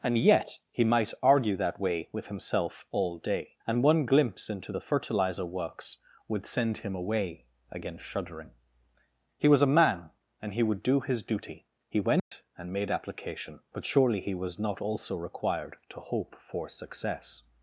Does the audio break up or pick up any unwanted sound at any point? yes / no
yes